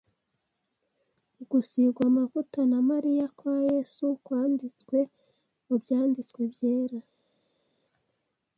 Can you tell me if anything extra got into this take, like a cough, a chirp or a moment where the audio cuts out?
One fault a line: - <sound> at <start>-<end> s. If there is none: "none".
none